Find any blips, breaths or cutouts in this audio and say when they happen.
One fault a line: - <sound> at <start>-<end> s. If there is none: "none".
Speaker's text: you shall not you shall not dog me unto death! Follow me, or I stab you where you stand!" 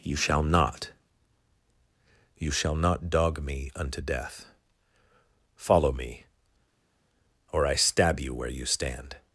none